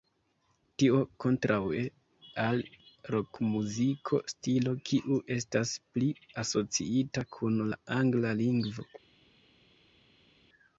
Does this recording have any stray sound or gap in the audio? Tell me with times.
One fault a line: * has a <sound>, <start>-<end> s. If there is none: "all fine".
all fine